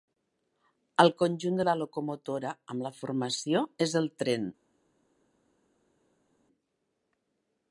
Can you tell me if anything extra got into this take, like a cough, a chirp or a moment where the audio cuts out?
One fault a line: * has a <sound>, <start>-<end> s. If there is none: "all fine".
all fine